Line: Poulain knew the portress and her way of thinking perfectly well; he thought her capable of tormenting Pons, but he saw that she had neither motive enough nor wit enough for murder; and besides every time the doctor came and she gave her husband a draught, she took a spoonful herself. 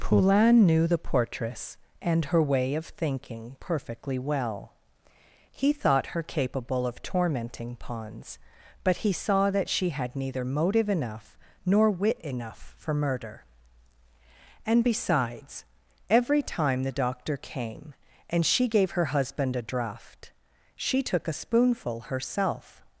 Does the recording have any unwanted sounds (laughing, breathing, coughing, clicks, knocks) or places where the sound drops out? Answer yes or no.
no